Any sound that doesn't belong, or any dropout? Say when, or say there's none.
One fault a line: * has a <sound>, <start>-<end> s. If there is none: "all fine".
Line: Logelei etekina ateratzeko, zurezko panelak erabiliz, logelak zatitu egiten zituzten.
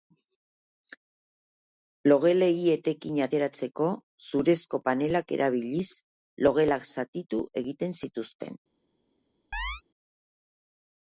* has a chirp, 9.5-9.8 s